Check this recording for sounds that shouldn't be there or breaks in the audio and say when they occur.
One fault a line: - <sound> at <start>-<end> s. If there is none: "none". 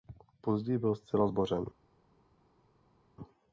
none